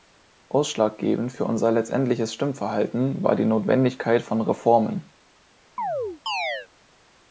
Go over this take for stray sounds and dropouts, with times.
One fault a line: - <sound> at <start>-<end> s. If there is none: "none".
- chirp at 5.8-6.7 s